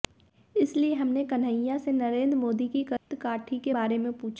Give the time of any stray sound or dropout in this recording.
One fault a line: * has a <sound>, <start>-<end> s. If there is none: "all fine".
* has a dropout, 3.0-3.1 s